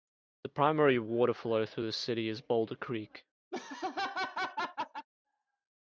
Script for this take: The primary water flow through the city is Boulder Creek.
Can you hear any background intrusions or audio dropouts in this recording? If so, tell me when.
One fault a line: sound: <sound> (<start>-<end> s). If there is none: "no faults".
sound: laugh (3.5-5.1 s)